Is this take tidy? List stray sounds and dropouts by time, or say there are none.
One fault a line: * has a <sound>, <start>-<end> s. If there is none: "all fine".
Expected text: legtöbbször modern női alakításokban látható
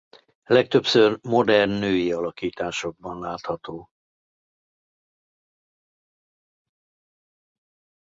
all fine